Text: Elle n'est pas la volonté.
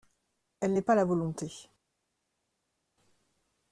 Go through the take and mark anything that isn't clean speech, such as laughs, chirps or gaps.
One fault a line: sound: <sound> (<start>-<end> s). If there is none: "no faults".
no faults